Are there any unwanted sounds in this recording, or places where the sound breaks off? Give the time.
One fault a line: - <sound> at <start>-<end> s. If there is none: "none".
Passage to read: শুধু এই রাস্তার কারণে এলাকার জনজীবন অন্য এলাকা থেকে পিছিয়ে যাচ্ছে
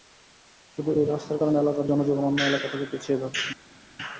none